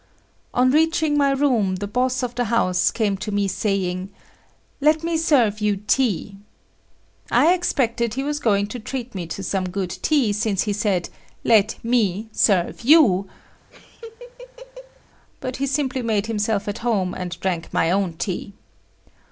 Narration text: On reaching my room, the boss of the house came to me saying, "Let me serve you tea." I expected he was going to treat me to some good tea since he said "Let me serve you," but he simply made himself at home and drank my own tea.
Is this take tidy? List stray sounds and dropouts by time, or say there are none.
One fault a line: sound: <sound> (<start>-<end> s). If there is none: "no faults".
sound: laugh (13.7-15.0 s)